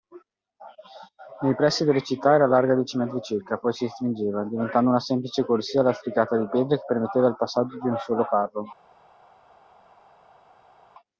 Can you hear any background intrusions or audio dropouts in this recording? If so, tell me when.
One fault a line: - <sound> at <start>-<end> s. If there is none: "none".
none